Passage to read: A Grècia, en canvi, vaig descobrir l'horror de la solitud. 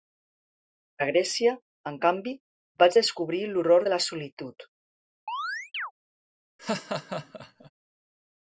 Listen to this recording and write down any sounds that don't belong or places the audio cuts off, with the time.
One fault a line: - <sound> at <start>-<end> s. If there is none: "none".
- chirp at 5.3-5.9 s
- laugh at 6.6-7.7 s